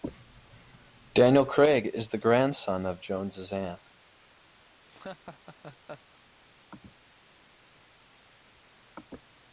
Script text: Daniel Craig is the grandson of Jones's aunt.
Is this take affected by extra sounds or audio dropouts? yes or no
yes